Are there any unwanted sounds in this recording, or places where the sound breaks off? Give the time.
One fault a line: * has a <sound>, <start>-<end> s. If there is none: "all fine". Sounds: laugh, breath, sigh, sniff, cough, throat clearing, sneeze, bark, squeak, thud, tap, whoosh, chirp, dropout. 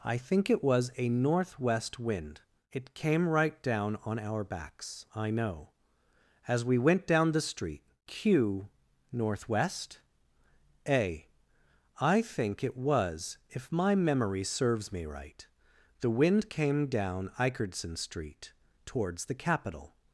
all fine